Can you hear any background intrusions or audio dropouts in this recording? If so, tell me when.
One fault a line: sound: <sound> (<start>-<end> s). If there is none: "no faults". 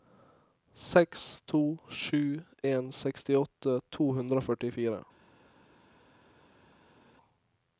no faults